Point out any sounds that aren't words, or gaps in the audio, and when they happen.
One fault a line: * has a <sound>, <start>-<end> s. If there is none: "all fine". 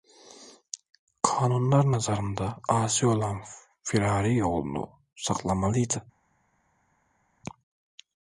all fine